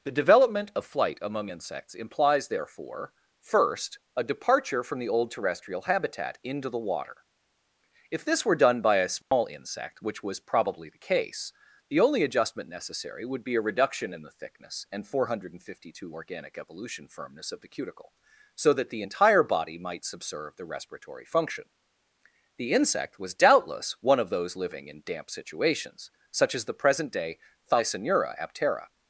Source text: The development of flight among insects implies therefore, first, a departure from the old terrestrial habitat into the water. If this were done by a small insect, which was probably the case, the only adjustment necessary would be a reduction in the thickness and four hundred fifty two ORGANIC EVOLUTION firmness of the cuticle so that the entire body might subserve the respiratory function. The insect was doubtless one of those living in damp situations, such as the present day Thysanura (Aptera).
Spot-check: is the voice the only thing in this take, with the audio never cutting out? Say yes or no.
no